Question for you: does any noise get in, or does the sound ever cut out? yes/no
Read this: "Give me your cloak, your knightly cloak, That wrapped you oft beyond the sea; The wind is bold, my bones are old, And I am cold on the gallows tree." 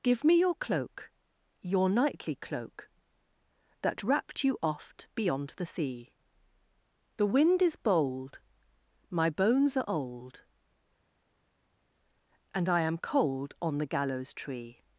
no